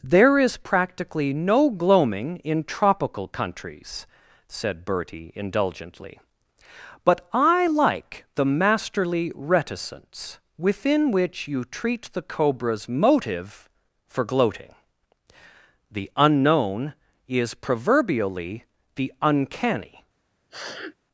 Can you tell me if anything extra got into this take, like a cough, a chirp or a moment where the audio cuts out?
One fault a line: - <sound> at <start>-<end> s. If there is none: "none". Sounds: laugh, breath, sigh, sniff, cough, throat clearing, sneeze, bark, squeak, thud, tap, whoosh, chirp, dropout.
- sniff at 20.5-20.9 s